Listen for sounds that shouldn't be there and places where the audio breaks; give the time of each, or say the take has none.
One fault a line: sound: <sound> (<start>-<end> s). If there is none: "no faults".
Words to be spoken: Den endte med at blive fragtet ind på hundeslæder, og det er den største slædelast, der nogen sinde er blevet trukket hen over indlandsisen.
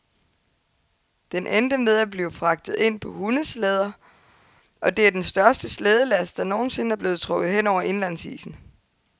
no faults